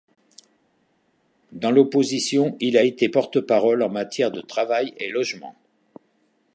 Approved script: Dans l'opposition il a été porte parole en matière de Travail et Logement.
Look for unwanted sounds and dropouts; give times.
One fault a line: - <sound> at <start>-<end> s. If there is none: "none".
none